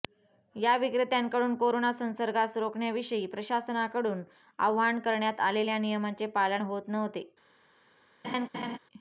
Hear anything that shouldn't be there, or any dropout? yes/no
yes